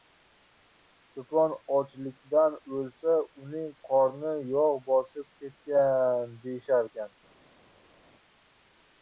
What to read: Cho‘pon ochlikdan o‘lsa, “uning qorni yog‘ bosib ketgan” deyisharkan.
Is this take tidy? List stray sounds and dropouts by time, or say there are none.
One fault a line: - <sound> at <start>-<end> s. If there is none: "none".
none